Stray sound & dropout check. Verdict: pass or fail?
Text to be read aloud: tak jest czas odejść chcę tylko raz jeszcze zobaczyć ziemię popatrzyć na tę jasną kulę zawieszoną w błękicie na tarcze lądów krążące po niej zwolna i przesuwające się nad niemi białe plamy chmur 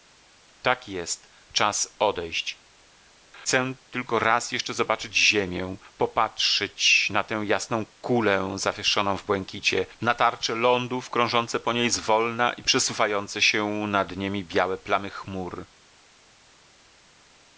pass